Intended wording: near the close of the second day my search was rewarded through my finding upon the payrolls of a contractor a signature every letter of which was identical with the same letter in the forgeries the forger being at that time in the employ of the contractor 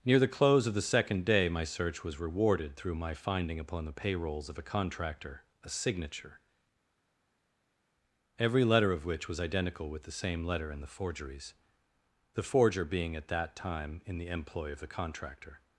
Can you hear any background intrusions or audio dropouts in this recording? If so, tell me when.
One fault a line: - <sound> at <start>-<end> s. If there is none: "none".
none